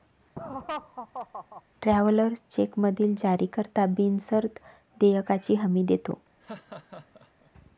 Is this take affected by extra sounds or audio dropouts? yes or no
yes